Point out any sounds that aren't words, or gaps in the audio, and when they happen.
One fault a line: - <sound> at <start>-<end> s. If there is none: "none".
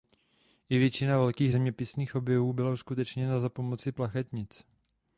none